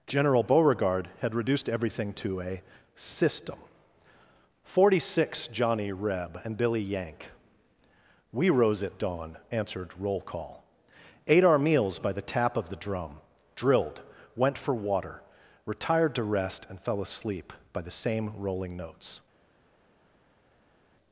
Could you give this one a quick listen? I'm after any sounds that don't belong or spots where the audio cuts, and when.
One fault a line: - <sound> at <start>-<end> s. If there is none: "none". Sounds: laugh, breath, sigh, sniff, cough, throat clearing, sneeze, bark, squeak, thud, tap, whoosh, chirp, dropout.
none